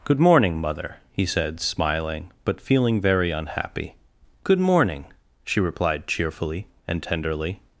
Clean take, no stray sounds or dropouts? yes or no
yes